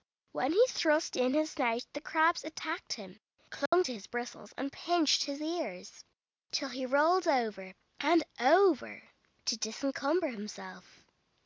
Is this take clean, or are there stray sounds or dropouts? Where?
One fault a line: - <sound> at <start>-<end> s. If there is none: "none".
- dropout at 3.7-3.7 s